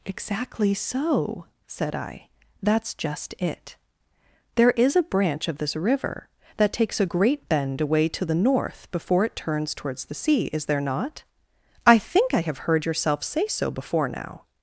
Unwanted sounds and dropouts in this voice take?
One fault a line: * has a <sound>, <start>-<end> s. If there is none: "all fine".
all fine